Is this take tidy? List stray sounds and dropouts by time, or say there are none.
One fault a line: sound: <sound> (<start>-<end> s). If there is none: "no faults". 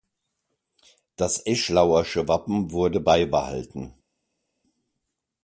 no faults